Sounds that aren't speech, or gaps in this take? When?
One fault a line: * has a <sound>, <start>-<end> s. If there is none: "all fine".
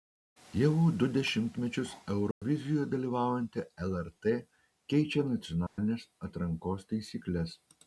* has a dropout, 2.3-2.4 s
* has a dropout, 5.7-5.8 s